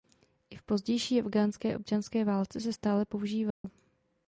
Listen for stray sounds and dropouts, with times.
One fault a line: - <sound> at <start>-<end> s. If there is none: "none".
- dropout at 3.5-3.6 s